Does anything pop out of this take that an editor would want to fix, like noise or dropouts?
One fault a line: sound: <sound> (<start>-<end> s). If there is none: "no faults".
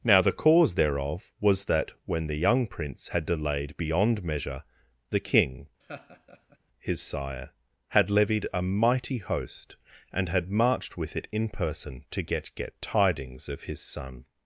sound: laugh (5.8-6.6 s)